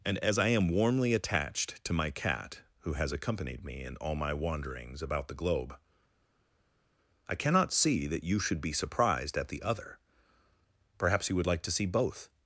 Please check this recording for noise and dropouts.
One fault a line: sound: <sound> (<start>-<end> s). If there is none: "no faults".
no faults